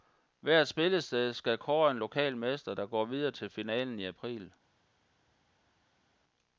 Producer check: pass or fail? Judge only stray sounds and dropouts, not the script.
pass